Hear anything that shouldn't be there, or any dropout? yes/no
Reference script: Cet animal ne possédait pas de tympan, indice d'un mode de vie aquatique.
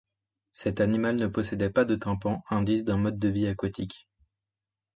no